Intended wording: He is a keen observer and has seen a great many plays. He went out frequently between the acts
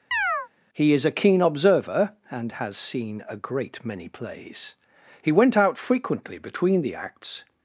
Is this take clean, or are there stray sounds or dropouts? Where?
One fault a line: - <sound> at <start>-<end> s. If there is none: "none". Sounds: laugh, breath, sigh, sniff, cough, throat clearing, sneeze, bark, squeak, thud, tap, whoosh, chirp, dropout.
- chirp at 0.1-0.5 s